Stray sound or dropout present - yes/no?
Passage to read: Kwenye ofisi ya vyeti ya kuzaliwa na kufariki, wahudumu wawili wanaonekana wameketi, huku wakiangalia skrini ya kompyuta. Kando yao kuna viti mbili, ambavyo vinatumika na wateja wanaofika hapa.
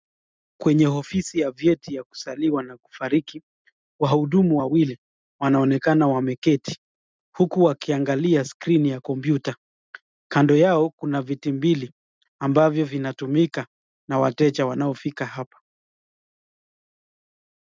no